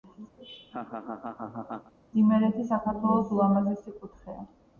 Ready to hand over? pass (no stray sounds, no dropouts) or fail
fail